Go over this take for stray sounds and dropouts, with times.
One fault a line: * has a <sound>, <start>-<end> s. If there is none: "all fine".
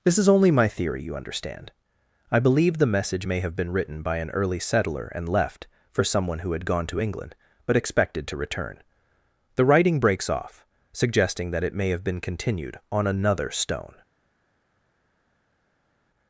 all fine